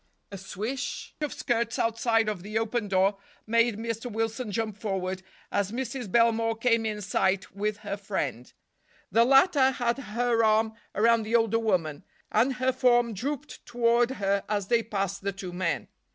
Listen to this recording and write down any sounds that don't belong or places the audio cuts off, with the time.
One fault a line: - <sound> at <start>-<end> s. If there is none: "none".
none